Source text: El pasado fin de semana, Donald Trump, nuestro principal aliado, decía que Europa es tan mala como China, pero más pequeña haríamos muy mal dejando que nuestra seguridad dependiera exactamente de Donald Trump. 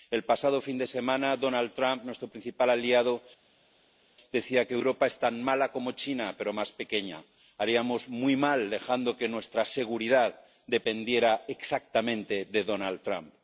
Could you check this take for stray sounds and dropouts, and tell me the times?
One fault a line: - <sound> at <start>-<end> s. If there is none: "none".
none